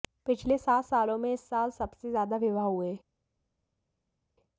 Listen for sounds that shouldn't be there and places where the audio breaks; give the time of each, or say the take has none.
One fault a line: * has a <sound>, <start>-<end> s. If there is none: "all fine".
all fine